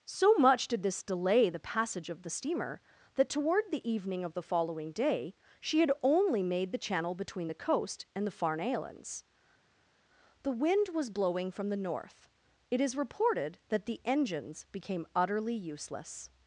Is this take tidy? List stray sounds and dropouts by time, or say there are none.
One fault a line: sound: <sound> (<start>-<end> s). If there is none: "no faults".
no faults